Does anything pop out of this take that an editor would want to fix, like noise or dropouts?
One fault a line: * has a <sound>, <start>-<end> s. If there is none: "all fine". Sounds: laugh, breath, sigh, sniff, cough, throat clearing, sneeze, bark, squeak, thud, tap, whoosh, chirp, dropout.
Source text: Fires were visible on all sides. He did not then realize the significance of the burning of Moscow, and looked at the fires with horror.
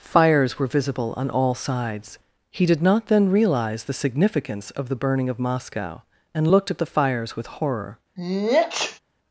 * has a sneeze, 8.2-9.0 s